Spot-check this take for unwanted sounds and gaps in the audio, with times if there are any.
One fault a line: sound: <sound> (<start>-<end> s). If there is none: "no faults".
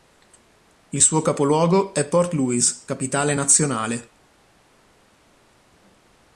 no faults